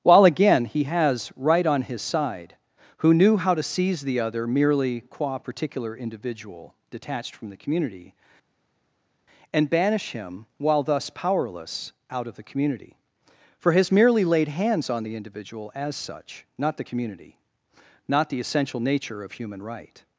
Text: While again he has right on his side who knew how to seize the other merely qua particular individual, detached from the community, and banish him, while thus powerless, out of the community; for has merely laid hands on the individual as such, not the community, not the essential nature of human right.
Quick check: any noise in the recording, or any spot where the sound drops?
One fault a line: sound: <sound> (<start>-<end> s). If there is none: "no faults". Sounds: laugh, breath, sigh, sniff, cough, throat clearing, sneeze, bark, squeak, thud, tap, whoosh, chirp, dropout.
no faults